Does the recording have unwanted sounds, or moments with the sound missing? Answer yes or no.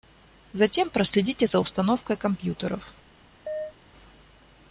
yes